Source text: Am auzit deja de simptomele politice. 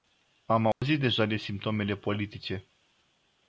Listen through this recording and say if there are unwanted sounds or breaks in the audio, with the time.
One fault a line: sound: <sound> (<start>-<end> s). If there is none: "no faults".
sound: dropout (0.7-0.8 s)